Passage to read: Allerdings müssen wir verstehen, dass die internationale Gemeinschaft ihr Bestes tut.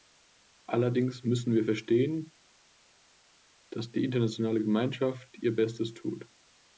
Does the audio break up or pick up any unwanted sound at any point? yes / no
no